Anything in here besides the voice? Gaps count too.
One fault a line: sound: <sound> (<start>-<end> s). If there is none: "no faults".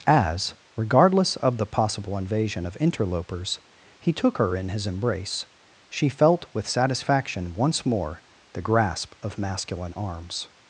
no faults